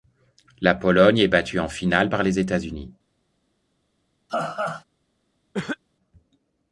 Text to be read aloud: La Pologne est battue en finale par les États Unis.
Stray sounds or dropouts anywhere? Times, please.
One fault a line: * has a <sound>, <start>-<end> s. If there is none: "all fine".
* has a laugh, 4.3-4.8 s
* has a cough, 5.5-5.8 s